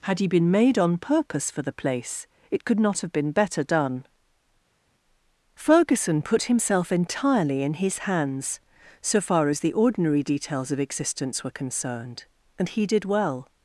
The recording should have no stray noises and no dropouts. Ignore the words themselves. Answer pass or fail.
pass